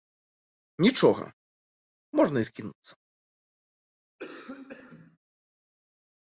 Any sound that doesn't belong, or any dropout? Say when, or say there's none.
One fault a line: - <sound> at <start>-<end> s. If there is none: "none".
- cough at 4.2-5.2 s